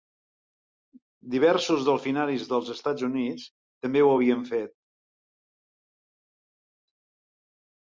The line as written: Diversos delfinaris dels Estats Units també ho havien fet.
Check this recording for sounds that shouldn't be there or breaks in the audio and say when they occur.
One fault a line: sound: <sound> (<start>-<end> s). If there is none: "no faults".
no faults